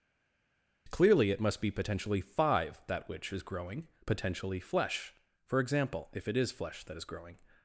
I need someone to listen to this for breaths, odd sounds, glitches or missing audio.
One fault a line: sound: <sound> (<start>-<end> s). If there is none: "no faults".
no faults